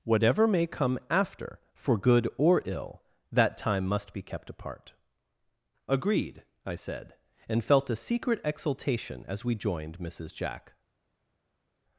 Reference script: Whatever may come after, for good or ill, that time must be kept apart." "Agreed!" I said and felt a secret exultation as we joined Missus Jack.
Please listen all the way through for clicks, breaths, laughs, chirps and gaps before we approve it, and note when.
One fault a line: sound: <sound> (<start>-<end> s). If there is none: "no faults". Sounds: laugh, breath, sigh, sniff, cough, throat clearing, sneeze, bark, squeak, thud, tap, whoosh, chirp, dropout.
no faults